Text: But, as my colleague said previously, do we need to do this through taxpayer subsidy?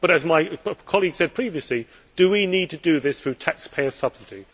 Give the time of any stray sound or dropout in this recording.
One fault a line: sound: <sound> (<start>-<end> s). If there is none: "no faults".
no faults